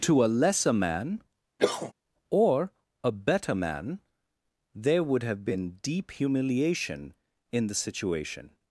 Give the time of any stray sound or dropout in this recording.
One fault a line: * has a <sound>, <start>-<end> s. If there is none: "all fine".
* has a cough, 1.6-1.9 s